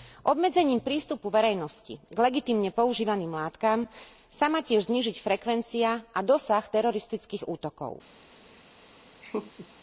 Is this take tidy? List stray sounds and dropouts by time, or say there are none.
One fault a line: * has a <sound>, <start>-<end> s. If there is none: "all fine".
* has a laugh, 9.2-9.7 s